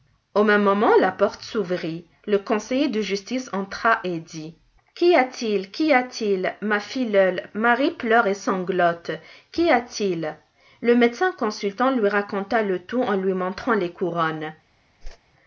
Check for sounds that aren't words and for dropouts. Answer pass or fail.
fail